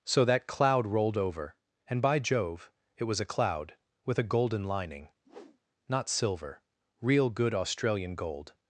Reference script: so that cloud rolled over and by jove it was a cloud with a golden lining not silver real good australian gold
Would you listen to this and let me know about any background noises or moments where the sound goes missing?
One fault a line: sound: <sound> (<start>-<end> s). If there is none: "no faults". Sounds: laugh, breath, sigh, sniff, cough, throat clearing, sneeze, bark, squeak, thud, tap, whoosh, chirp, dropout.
sound: whoosh (5.2-5.6 s)